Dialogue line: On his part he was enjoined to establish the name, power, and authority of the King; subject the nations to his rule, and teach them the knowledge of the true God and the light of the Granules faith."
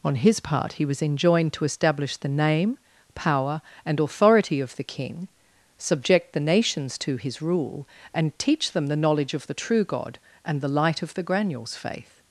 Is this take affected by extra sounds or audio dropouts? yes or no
no